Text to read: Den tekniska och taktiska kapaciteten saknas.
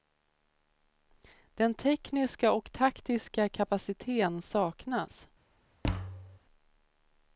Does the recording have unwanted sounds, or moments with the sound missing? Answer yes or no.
yes